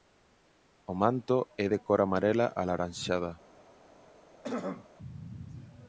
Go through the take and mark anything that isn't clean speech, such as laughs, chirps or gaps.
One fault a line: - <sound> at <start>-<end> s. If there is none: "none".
- throat clearing at 4.4-4.9 s